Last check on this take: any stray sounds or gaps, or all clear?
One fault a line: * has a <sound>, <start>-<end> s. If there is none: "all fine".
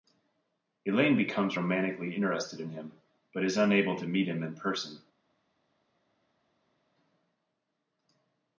all fine